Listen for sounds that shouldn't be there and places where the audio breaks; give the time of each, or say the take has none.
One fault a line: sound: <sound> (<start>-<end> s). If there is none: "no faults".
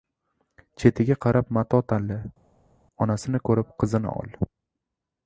no faults